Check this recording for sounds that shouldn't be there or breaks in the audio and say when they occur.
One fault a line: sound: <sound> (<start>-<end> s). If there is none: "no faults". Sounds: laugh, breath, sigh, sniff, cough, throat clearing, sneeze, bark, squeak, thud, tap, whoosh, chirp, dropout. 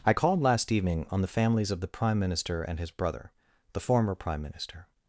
no faults